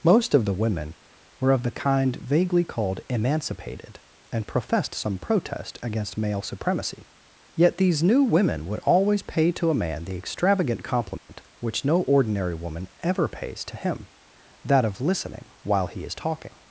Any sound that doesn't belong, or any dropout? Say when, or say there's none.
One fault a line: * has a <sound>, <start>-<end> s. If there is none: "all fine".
* has a dropout, 11.2-11.3 s